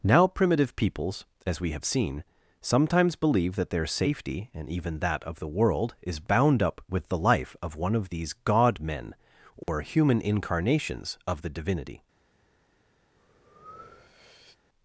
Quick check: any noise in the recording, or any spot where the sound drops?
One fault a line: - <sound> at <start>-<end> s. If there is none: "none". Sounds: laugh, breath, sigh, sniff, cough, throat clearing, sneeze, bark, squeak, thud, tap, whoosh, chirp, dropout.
- dropout at 9.6-9.7 s
- breath at 13.2-14.6 s